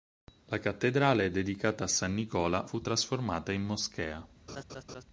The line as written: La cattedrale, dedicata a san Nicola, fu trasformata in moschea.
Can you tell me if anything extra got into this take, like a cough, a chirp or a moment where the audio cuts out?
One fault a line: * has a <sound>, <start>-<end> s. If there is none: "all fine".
* has a laugh, 4.5-5.0 s